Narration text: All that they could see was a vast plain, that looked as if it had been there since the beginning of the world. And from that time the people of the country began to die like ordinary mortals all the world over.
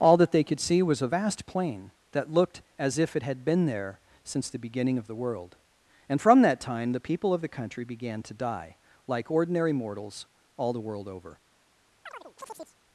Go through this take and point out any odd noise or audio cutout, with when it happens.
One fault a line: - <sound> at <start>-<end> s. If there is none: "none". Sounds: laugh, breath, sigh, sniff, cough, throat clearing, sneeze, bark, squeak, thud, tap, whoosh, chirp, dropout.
- chirp at 12.0-12.8 s